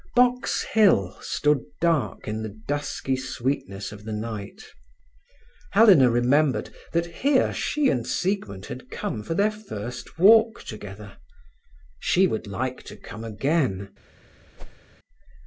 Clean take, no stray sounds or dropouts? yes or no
no